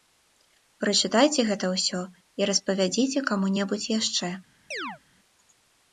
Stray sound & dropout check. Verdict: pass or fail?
fail